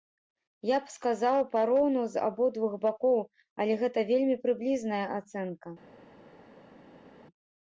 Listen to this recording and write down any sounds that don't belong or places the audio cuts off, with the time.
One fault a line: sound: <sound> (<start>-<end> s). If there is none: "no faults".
no faults